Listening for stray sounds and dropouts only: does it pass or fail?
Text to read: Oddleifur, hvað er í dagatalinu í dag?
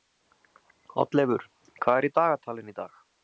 pass